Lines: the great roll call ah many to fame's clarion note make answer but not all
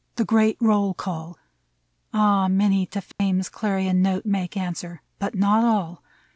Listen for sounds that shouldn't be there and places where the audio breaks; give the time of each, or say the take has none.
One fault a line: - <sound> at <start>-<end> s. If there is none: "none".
- dropout at 3.1-3.2 s